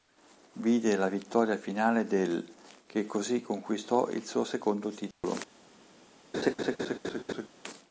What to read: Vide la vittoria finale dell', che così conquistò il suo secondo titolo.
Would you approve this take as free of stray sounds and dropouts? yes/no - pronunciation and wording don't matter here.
no